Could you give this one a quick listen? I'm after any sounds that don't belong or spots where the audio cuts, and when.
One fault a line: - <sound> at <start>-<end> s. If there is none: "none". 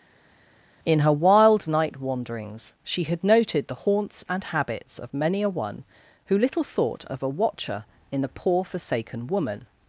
none